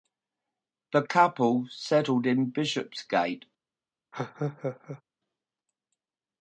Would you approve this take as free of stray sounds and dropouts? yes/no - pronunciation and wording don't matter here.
no